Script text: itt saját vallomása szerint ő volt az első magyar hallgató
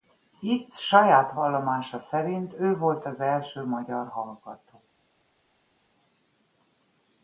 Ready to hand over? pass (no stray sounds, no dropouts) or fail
pass